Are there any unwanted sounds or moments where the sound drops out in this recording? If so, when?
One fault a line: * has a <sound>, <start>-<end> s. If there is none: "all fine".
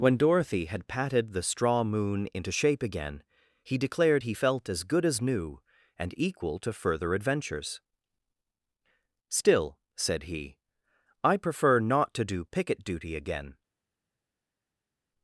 all fine